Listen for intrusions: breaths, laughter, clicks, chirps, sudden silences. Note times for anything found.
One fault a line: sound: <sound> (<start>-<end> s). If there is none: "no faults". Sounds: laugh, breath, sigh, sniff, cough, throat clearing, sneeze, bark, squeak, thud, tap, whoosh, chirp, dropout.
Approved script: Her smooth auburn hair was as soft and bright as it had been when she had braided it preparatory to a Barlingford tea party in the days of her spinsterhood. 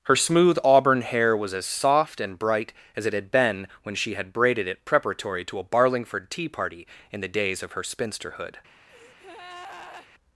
sound: breath (8.9-10.1 s)